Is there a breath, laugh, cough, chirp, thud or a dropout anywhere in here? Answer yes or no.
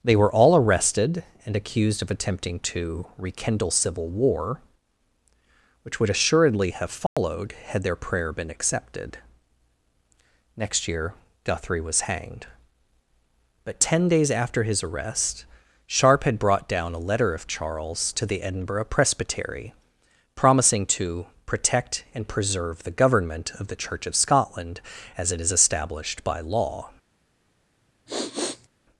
yes